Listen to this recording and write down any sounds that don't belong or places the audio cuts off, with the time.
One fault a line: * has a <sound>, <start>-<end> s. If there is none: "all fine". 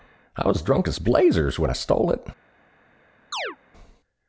* has a chirp, 3.3-3.6 s